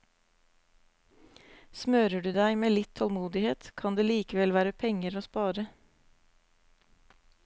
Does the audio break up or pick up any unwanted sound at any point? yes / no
no